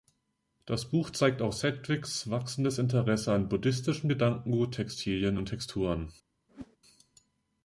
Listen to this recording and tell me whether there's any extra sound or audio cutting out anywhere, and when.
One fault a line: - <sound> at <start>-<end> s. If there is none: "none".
- whoosh at 6.5-6.8 s